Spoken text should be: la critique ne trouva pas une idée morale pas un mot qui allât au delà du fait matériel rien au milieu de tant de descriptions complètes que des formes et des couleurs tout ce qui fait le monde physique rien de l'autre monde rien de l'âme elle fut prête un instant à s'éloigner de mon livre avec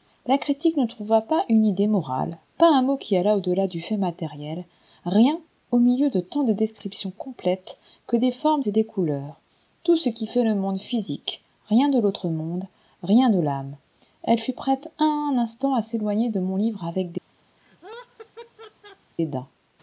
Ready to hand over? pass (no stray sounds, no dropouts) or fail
fail